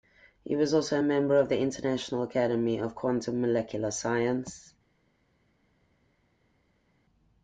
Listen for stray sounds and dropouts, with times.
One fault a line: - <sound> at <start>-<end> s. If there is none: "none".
none